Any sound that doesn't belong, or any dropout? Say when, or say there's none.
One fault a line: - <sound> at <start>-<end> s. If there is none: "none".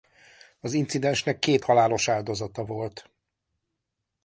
none